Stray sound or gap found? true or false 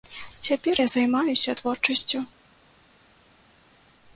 false